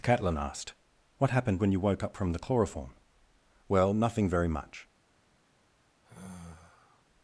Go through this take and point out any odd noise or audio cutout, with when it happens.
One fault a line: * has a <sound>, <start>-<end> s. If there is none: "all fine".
* has a sigh, 6.0-7.0 s